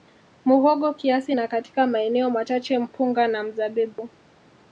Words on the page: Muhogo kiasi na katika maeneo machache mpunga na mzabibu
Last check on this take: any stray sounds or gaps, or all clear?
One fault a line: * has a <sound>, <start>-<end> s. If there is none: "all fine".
* has a dropout, 3.9-4.0 s